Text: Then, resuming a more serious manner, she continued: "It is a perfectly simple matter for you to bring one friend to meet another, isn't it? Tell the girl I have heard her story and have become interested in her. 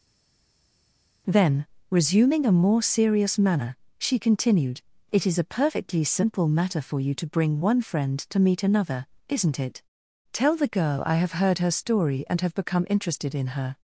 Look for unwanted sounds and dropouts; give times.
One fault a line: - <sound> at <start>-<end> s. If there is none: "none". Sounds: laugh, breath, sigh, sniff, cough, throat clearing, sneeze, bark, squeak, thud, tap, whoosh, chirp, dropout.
none